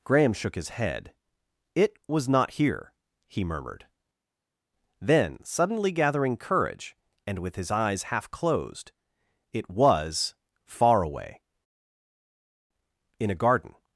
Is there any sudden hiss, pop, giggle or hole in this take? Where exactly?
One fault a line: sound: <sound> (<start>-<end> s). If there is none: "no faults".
no faults